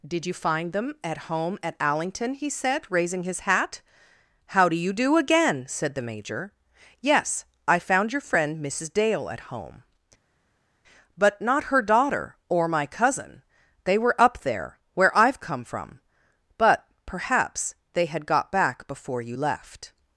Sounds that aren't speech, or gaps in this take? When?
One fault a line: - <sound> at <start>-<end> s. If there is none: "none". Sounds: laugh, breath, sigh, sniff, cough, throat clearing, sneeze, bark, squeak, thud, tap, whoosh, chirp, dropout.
none